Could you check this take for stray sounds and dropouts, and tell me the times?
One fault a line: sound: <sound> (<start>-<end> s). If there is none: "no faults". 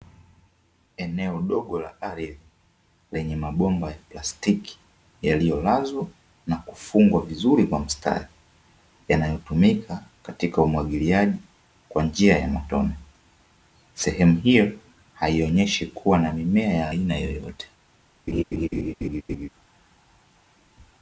sound: laugh (18.3-19.5 s)